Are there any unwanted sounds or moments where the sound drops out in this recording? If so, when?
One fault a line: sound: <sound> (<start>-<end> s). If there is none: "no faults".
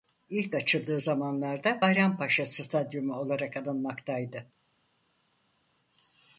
no faults